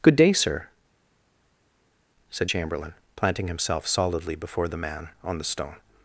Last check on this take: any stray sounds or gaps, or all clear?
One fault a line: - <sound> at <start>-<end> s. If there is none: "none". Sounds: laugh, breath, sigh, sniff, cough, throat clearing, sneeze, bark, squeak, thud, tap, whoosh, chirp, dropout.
none